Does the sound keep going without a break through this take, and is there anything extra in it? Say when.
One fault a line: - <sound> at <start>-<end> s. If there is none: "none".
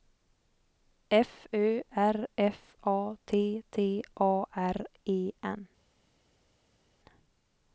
none